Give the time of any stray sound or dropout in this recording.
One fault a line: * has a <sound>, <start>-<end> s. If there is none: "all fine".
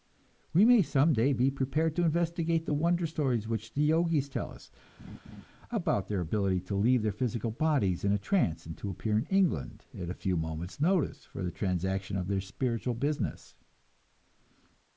* has a laugh, 5.0-5.5 s